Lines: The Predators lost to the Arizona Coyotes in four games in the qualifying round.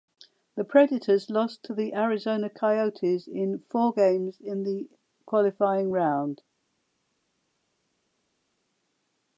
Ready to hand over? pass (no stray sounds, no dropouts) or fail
pass